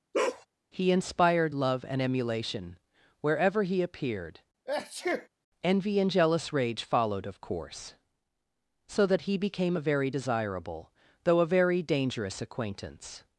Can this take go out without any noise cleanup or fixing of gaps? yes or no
no